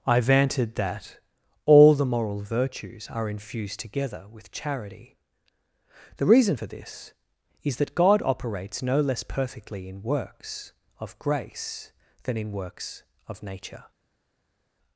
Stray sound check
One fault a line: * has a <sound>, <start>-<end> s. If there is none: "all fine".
all fine